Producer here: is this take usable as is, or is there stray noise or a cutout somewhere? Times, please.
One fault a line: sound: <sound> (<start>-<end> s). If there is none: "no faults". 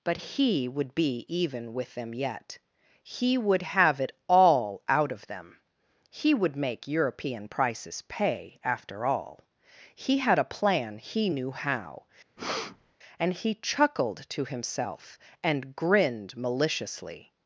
sound: breath (12.4-13.0 s)